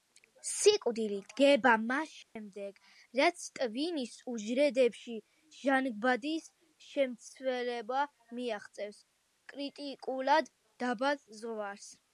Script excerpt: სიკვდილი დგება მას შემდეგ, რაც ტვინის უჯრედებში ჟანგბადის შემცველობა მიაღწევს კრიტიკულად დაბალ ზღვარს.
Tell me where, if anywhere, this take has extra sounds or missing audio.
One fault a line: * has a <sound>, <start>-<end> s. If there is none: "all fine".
* has a dropout, 2.2-2.4 s